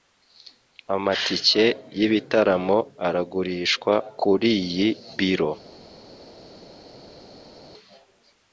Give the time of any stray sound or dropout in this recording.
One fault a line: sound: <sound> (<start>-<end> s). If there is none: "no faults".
no faults